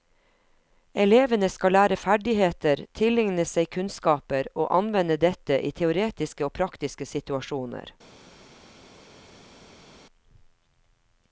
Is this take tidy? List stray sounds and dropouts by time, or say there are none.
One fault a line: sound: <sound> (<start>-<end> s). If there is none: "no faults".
no faults